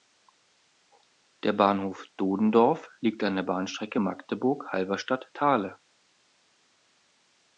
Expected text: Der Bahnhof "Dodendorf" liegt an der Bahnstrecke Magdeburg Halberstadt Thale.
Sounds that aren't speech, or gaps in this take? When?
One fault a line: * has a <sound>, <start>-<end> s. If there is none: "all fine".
all fine